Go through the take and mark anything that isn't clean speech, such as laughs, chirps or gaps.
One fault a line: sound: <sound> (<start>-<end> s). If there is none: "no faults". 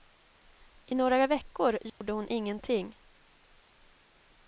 sound: dropout (1.9-2.0 s)